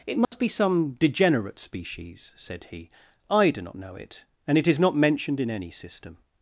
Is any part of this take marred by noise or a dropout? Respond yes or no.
yes